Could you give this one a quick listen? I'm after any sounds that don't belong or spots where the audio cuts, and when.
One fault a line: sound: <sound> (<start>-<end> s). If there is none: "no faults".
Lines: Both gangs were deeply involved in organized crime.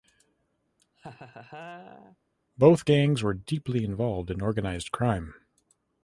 sound: laugh (0.8-2.2 s)